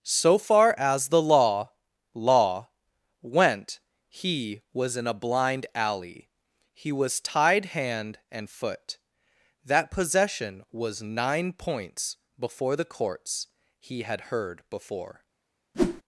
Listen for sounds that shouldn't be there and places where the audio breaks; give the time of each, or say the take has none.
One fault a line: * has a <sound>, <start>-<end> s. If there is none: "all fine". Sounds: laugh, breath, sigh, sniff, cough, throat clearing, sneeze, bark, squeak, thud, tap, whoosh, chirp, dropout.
* has a whoosh, 15.7-16.0 s